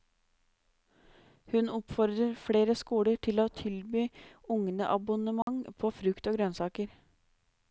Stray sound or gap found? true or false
true